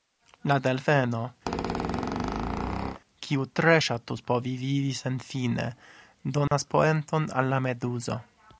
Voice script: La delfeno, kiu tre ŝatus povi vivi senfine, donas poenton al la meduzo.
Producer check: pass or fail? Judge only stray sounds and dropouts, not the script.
fail